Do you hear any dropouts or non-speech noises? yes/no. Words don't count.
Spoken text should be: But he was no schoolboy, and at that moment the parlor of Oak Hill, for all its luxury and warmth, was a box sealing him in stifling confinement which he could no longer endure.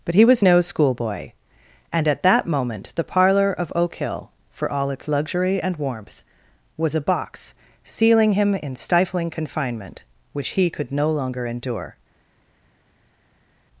no